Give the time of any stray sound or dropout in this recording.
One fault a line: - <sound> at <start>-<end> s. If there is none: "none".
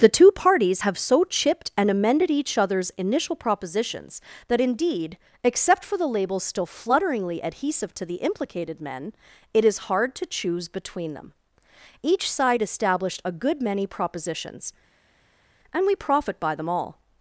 none